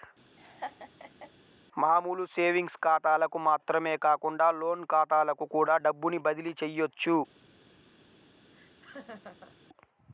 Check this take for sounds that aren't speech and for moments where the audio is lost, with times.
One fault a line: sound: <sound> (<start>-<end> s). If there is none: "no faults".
sound: laugh (0.4-1.3 s)
sound: laugh (8.5-9.6 s)